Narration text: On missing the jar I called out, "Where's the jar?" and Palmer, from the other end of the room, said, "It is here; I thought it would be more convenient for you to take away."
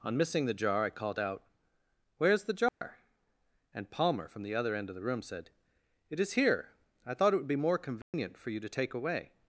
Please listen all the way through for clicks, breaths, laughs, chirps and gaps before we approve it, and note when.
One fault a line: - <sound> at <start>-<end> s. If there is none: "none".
- dropout at 2.7-2.8 s
- dropout at 8.0-8.1 s